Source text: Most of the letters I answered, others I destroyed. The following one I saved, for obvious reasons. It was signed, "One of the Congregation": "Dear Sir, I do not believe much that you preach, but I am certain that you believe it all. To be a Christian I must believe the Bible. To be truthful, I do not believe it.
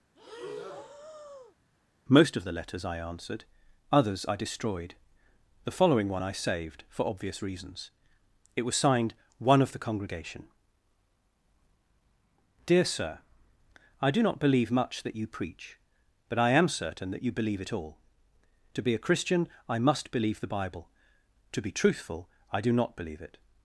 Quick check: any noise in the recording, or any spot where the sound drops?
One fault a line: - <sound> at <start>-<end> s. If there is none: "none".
- breath at 0.2-1.6 s